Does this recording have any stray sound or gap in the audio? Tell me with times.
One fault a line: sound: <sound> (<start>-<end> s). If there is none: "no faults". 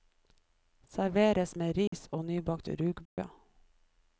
sound: dropout (1.9-1.9 s)
sound: dropout (3.1-3.2 s)